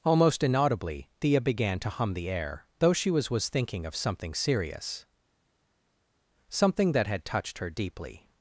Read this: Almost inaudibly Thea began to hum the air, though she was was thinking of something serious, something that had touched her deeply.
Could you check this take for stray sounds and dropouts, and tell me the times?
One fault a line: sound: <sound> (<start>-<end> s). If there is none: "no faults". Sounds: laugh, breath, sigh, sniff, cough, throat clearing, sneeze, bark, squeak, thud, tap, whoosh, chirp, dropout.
no faults